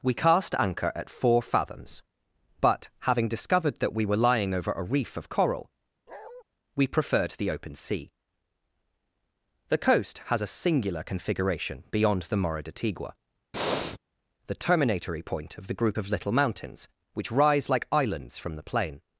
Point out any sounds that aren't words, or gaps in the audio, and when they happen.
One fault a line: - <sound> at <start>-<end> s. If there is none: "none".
- bark at 6.1-6.4 s
- breath at 13.5-14.0 s